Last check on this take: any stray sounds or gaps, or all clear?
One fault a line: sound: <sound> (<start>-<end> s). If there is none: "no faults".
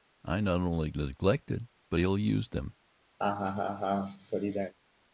sound: laugh (3.2-4.7 s)